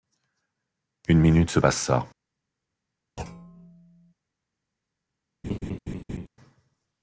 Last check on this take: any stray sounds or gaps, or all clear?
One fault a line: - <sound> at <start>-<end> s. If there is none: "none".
- thud at 3.2-4.1 s
- laugh at 5.4-6.3 s